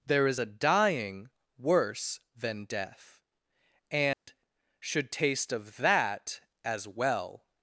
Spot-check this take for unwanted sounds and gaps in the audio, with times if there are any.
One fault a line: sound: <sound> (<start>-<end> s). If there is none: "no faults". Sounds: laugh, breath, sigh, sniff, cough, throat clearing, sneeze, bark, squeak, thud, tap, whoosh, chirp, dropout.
sound: dropout (4.1-4.3 s)